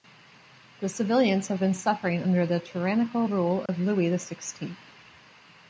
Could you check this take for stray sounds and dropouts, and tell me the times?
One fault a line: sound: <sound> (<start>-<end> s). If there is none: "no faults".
sound: dropout (3.7-3.7 s)